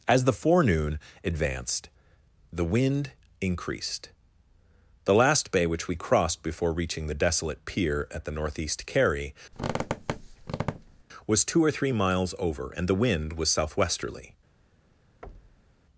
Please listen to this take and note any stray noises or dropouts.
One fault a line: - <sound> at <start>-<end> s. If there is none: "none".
- squeak at 9.5-11.0 s
- thud at 15.2-15.8 s